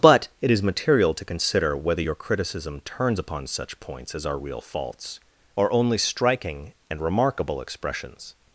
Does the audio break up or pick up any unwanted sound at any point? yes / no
no